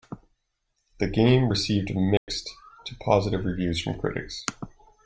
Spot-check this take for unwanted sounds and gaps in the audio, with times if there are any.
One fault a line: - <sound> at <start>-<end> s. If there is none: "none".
- dropout at 2.2-2.3 s